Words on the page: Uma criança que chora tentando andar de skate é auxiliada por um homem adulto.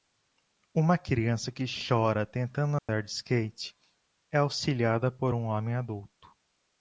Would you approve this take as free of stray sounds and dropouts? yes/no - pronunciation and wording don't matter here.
no